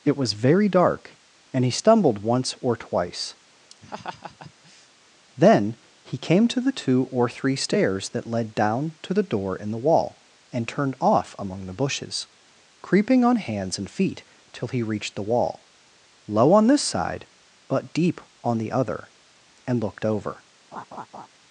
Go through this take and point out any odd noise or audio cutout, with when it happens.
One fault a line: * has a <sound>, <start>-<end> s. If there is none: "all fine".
* has a laugh, 3.7-4.9 s
* has a laugh, 20.7-21.3 s